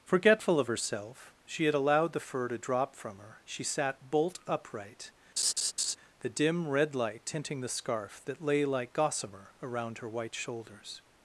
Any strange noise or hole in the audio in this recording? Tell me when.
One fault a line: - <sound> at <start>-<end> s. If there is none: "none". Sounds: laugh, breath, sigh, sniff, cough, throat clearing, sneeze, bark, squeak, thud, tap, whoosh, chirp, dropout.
- laugh at 5.4-6.0 s